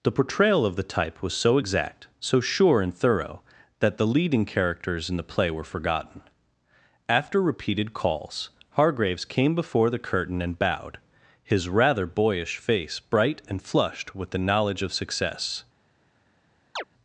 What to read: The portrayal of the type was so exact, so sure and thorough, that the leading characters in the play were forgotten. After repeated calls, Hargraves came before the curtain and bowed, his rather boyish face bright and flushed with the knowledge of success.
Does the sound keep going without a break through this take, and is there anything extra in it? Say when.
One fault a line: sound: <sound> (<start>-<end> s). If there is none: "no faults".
sound: chirp (16.8-16.8 s)